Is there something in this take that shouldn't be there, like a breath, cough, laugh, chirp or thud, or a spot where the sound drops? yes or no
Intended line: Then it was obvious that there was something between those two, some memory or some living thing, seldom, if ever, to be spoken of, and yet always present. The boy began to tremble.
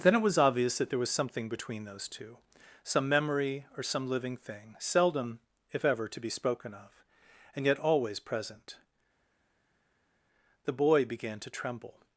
no